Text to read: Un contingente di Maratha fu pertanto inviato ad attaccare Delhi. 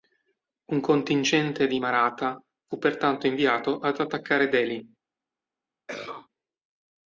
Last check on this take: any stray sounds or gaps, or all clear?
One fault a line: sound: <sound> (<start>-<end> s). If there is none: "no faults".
sound: cough (5.9-6.3 s)